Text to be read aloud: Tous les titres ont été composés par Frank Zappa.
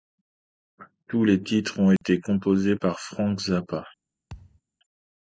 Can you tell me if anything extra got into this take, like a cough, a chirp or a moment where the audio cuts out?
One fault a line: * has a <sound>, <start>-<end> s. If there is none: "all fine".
* has a dropout, 2.0-2.0 s
* has a thud, 4.3-4.6 s